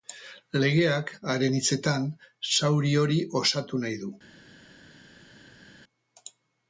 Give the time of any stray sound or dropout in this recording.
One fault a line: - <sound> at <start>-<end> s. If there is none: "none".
none